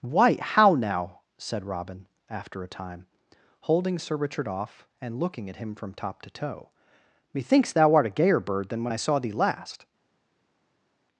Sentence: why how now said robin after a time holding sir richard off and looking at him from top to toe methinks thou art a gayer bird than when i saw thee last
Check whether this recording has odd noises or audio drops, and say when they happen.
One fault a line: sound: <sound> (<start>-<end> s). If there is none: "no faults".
no faults